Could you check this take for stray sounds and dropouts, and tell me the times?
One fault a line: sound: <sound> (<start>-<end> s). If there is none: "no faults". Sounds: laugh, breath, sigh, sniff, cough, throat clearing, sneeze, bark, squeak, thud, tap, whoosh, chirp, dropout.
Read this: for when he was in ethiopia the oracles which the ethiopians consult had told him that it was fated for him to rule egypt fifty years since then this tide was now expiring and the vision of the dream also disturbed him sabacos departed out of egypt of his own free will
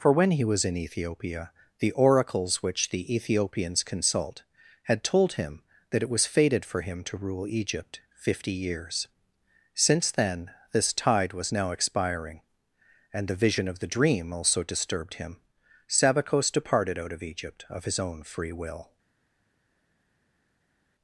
no faults